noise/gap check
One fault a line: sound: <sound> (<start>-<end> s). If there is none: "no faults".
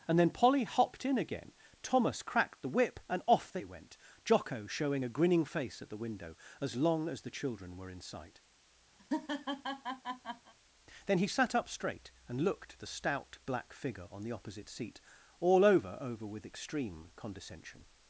sound: laugh (9.0-10.5 s)